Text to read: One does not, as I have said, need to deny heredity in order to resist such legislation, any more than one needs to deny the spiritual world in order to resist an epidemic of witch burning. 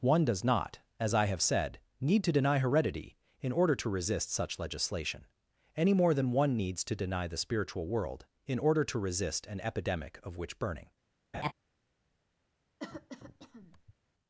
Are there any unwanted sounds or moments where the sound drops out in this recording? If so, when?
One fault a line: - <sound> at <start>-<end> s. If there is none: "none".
- laugh at 11.3-11.5 s
- cough at 12.8-13.9 s